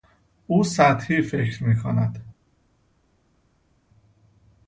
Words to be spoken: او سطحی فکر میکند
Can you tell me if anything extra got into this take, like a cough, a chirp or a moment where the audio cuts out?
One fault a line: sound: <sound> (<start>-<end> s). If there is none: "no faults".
no faults